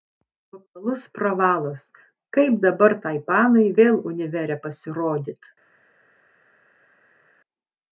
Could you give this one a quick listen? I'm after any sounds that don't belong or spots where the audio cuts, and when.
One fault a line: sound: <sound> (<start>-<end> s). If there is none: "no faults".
no faults